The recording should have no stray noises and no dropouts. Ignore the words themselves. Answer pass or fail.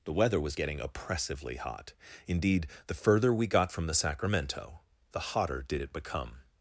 pass